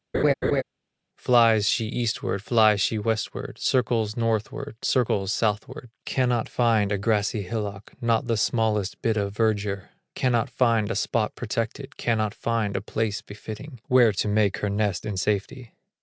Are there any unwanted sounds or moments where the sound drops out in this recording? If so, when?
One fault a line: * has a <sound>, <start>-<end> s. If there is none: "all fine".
* has a laugh, 0.1-0.6 s